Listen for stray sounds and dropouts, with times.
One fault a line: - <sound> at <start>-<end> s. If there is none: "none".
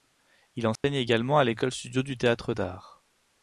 - dropout at 0.8-0.8 s